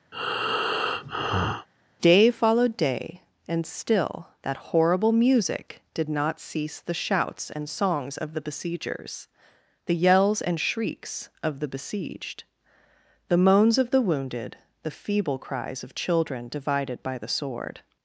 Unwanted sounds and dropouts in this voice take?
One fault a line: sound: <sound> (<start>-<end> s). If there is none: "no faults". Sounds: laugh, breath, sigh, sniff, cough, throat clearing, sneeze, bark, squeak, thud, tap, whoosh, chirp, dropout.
sound: breath (0.1-1.7 s)